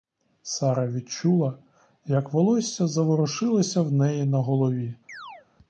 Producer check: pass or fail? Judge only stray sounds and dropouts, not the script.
fail